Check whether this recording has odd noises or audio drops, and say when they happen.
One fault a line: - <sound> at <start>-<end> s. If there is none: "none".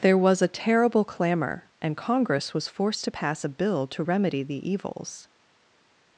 none